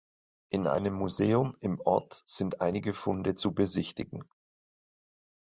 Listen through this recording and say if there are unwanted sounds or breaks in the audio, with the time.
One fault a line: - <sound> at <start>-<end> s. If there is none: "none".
none